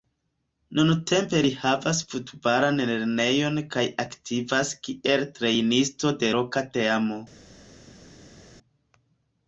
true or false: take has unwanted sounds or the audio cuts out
false